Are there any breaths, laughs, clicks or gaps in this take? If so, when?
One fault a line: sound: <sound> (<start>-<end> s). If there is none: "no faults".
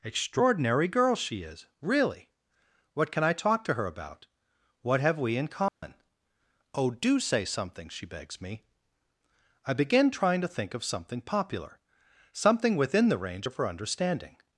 sound: dropout (5.7-5.8 s)